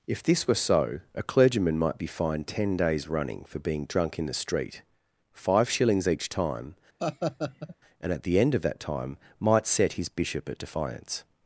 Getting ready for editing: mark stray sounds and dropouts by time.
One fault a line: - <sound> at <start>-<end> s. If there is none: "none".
- laugh at 7.0-7.8 s